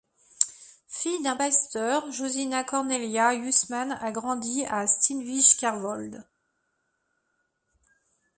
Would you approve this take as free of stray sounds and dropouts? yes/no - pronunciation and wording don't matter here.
yes